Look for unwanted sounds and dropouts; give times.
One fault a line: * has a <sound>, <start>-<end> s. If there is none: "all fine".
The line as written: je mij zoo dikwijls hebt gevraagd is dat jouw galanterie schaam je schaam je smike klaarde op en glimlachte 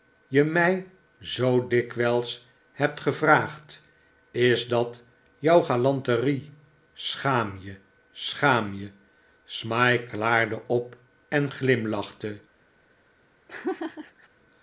* has a laugh, 13.5-14.3 s